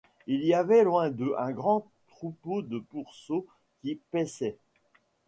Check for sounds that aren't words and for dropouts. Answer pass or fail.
pass